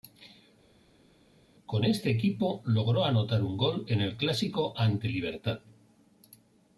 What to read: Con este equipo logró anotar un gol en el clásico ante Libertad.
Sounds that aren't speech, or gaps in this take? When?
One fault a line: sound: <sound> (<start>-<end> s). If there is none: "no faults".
no faults